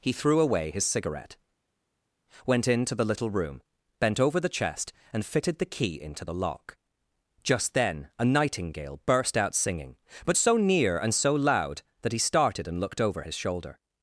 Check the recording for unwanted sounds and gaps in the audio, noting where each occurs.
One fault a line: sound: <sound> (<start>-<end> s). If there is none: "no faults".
no faults